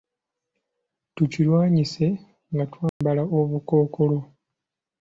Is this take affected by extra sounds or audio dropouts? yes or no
yes